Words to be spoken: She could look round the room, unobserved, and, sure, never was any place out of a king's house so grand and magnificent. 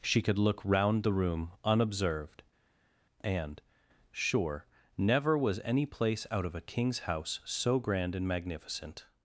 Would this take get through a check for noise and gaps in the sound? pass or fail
pass